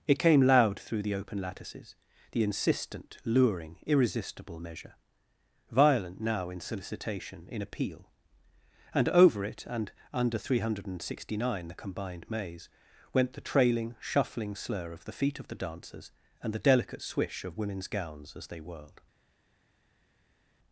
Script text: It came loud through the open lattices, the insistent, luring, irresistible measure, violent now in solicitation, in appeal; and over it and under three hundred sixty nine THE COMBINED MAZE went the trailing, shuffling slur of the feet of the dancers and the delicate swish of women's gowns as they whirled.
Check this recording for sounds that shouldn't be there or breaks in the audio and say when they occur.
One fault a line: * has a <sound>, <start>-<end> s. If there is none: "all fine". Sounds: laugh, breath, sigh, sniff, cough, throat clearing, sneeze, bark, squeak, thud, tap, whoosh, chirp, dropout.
all fine